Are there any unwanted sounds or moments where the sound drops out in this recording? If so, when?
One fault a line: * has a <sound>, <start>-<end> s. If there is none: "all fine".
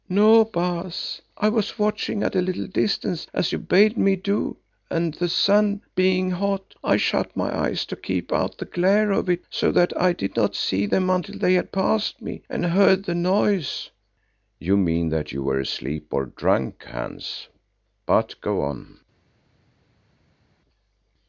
all fine